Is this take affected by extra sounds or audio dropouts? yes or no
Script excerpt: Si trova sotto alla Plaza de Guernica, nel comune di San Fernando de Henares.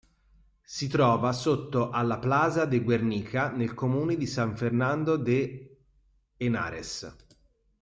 no